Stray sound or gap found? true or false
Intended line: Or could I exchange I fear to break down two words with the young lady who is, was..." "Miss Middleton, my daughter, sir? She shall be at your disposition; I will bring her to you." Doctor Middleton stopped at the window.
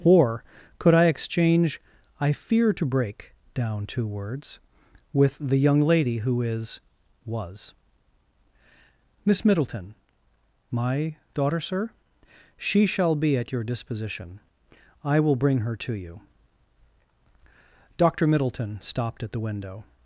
false